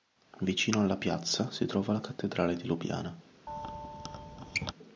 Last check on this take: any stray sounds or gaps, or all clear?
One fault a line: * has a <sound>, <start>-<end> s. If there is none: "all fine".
* has a squeak, 3.5-4.7 s